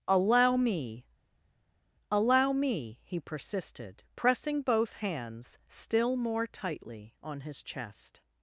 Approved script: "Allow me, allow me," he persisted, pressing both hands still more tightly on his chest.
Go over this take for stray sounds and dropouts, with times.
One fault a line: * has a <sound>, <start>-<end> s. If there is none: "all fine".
all fine